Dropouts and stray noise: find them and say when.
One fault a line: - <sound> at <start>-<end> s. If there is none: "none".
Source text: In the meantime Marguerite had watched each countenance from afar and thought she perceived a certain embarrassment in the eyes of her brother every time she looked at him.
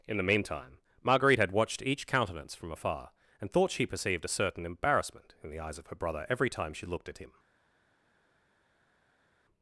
none